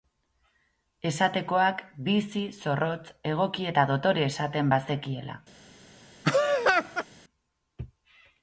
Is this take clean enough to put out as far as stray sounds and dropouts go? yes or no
no